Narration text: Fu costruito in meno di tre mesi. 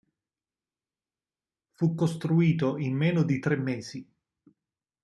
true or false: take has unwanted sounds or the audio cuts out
false